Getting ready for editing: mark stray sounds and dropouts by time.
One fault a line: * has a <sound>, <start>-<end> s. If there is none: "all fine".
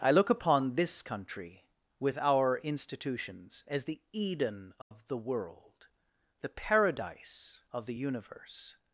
* has a dropout, 4.8-4.9 s